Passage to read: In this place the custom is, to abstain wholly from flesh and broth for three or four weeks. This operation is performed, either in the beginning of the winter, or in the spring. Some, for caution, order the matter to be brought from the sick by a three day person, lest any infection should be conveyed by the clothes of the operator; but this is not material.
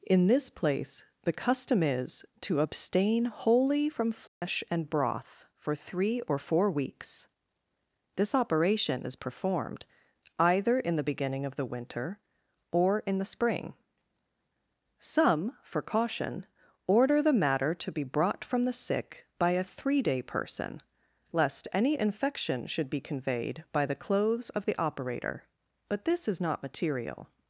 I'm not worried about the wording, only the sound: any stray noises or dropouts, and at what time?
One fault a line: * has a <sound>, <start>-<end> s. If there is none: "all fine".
* has a dropout, 4.3-4.4 s